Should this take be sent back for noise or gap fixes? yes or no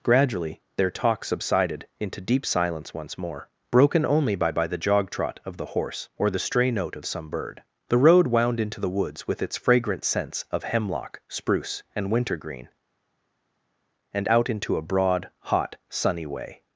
no